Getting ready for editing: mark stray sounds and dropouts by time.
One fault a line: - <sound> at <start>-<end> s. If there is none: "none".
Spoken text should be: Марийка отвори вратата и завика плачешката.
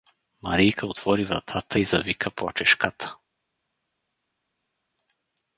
none